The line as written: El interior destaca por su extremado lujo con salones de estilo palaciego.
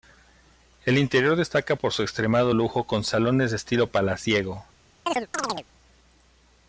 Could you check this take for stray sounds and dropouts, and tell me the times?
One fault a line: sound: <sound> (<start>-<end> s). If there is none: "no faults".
sound: chirp (5.1-5.7 s)